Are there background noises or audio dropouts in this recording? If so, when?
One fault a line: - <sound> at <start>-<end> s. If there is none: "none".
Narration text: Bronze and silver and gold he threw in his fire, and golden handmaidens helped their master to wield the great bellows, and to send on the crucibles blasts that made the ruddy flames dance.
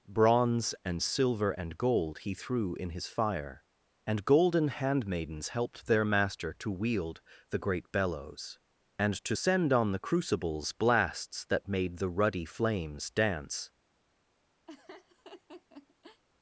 - laugh at 14.7-16.2 s